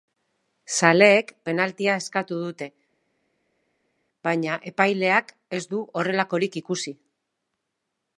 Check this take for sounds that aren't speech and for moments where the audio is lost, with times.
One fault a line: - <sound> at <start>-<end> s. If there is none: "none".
none